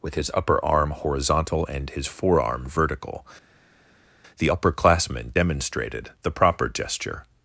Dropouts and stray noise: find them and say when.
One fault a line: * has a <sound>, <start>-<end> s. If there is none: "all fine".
all fine